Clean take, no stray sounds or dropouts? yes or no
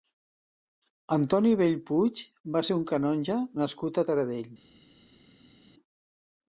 yes